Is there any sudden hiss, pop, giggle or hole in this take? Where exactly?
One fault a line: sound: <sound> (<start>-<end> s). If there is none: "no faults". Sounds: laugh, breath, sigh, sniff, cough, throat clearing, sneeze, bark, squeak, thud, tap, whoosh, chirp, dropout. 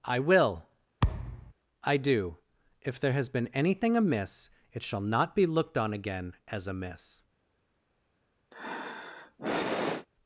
sound: thud (1.0-1.5 s)
sound: sigh (8.5-10.1 s)